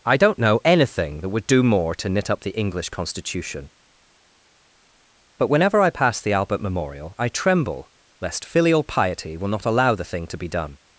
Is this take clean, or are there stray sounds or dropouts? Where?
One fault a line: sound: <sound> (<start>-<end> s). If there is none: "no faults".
no faults